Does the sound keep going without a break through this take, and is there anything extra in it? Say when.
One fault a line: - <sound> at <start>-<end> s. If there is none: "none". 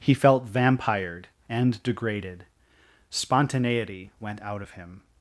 none